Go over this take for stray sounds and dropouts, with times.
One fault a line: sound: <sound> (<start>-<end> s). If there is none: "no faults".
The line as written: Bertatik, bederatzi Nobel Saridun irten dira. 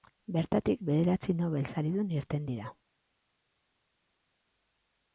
no faults